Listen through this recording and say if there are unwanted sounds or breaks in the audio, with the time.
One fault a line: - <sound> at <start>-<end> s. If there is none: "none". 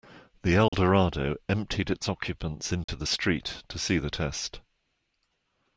- dropout at 0.7-0.7 s
- dropout at 2.8-2.9 s